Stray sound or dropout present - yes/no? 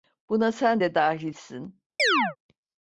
yes